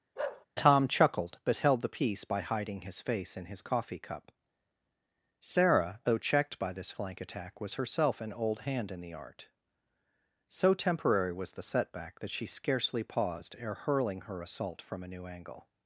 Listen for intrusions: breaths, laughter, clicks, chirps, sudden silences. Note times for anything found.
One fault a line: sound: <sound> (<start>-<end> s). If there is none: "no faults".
sound: bark (0.2-0.5 s)